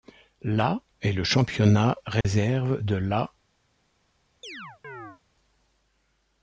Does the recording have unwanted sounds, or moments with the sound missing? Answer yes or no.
yes